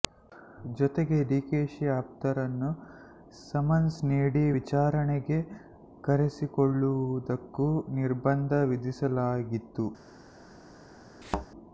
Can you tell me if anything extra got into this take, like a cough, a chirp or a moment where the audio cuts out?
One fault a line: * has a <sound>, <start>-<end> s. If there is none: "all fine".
* has a thud, 11.2-11.5 s